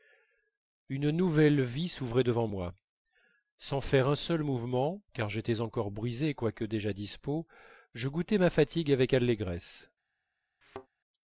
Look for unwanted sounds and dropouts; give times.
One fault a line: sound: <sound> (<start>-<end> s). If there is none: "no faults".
sound: thud (10.6-10.9 s)